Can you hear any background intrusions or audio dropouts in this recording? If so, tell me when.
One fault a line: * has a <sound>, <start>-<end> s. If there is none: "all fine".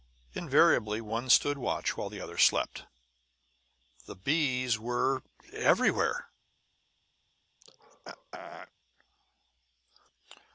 * has a throat clearing, 7.6-8.7 s